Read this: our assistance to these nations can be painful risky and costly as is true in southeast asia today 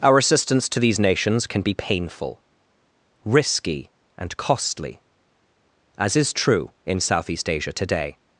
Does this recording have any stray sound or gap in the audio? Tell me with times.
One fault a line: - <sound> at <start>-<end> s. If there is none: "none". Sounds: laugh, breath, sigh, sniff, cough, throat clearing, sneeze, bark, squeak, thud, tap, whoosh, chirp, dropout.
none